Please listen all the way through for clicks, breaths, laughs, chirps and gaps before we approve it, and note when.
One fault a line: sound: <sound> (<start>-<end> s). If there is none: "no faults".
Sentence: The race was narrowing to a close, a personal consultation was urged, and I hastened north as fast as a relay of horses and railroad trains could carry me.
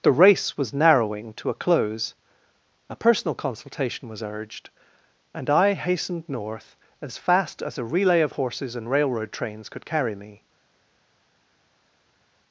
no faults